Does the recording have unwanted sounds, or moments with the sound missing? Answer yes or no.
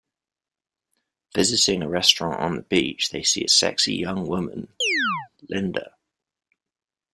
yes